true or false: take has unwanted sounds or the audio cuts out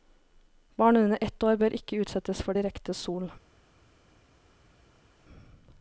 false